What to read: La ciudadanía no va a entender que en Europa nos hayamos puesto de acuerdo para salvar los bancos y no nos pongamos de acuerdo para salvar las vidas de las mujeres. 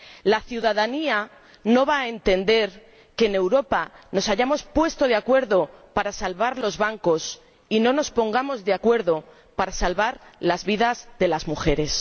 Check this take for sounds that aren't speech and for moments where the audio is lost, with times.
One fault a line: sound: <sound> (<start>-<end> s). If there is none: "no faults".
no faults